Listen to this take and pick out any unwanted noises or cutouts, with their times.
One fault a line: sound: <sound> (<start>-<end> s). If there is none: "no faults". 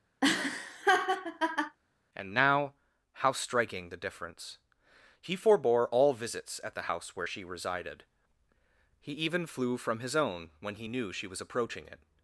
sound: laugh (0.2-1.8 s)